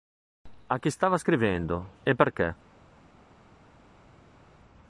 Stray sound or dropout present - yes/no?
no